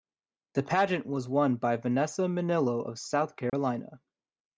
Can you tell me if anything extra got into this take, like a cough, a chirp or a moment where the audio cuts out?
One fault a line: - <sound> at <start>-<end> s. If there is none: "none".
- dropout at 3.5-3.5 s